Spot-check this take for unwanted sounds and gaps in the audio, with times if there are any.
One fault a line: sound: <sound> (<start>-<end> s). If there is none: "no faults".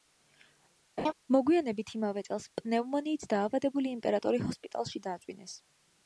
sound: laugh (1.0-1.1 s)